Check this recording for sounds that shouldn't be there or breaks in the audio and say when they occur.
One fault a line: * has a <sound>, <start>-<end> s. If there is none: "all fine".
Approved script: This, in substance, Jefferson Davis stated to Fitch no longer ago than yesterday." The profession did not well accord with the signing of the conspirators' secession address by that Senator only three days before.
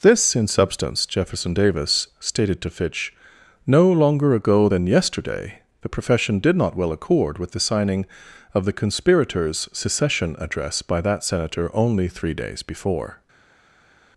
all fine